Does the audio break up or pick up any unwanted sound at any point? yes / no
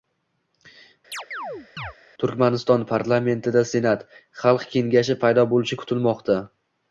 yes